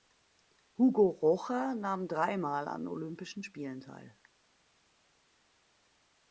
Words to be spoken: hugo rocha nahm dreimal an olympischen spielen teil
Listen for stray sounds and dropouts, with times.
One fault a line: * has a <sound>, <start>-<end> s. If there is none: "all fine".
all fine